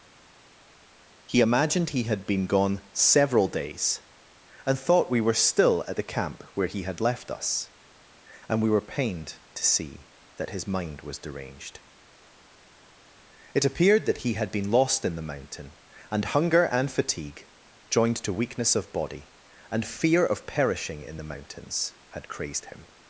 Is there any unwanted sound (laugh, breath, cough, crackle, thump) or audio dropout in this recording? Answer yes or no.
no